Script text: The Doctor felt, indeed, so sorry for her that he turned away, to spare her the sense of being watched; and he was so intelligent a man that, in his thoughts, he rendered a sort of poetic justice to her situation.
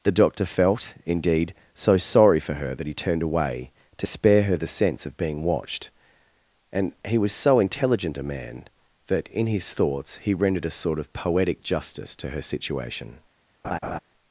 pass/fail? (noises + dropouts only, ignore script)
fail